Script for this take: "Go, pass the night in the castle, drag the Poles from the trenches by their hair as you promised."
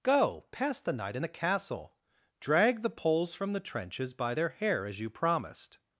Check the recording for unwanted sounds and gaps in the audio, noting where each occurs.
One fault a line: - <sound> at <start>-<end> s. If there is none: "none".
none